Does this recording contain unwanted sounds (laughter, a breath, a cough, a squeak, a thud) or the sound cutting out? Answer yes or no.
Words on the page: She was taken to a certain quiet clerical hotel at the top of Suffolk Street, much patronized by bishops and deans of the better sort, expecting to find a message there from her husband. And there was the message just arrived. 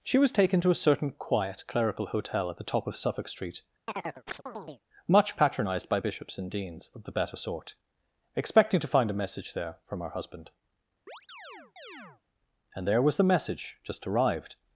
yes